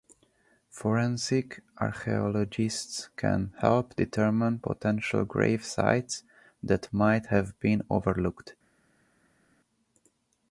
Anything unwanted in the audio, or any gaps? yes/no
no